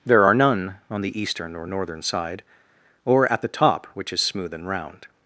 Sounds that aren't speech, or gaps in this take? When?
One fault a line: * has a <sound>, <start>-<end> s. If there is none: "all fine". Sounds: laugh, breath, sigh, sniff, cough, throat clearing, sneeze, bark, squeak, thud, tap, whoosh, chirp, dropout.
all fine